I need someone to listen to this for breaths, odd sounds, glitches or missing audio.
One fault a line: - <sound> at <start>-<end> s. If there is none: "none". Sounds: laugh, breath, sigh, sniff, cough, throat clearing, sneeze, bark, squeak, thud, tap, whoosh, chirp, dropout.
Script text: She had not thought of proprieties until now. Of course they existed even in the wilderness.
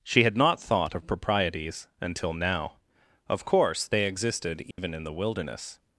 - dropout at 4.7-4.8 s